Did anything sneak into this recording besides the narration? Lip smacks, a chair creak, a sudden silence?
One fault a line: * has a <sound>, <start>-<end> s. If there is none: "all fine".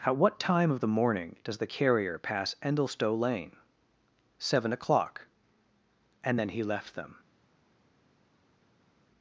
all fine